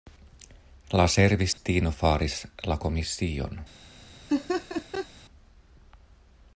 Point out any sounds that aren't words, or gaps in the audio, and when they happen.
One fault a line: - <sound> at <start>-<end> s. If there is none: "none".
- dropout at 1.5-1.6 s
- laugh at 4.3-5.1 s